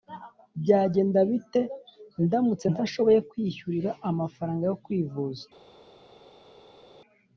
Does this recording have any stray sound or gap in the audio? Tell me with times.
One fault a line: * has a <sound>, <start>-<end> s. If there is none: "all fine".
all fine